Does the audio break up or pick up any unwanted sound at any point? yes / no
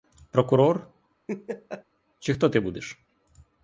yes